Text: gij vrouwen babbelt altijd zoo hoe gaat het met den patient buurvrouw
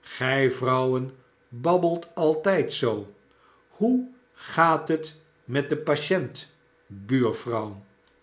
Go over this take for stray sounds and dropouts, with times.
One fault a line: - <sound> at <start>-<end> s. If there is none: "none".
none